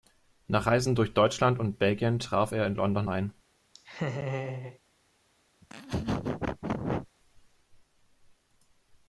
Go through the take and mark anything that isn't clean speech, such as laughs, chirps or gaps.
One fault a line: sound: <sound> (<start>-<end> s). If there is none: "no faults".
sound: laugh (3.7-4.8 s)
sound: laugh (5.6-7.1 s)